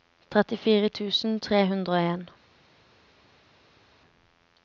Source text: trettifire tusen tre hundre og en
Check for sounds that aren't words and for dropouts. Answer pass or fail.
pass